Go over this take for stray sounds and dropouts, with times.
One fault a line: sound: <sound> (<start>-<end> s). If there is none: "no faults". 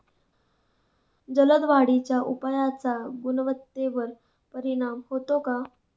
no faults